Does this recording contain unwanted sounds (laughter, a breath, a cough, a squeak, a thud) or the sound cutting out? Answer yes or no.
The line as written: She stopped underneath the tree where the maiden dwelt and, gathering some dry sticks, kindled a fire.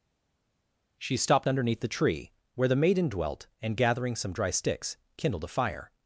no